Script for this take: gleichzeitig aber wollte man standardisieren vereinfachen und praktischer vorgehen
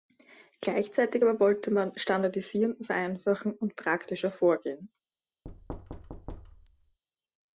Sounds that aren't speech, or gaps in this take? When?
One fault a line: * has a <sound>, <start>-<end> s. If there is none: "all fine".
* has a thud, 5.4-7.0 s